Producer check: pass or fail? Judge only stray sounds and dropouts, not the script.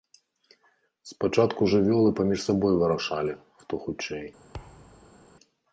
fail